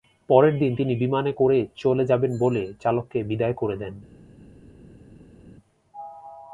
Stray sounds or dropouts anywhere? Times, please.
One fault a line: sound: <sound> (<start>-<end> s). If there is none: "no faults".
no faults